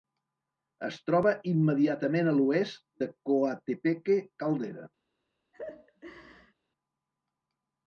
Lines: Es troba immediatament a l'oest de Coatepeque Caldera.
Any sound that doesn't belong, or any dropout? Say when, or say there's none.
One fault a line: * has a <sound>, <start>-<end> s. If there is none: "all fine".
* has a laugh, 5.5-6.5 s